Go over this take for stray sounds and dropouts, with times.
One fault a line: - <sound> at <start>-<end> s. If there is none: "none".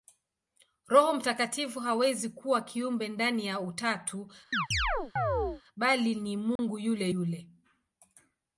- chirp at 4.5-5.6 s
- dropout at 6.6-6.6 s